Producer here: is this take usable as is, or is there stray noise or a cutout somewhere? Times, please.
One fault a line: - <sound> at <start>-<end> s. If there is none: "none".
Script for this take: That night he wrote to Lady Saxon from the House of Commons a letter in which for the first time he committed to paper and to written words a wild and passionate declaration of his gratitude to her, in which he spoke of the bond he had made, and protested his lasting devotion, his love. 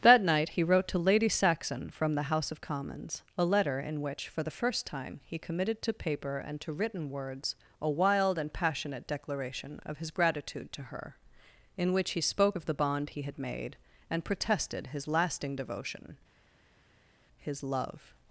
none